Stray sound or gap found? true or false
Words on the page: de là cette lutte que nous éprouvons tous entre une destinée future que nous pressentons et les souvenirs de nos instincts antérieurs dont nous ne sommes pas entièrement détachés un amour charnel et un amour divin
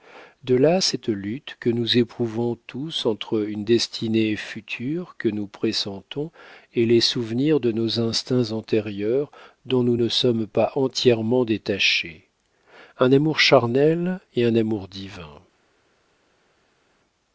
false